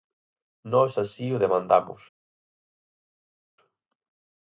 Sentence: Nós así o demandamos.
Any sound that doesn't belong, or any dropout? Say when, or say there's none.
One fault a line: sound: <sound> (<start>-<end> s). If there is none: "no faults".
no faults